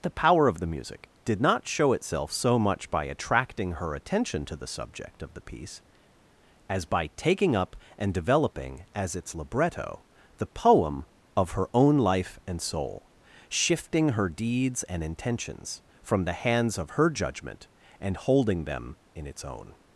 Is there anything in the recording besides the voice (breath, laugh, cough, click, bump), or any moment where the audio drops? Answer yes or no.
no